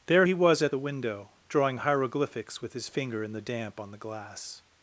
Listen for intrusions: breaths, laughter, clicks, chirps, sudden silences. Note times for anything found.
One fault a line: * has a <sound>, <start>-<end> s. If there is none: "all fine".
all fine